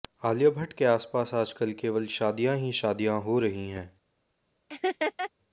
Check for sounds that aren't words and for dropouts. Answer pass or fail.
fail